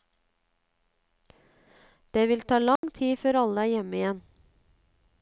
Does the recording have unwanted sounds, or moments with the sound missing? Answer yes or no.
yes